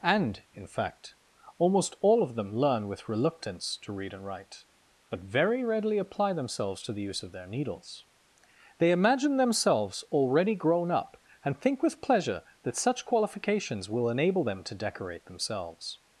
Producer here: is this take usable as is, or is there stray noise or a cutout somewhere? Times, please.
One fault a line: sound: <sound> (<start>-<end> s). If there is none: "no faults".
no faults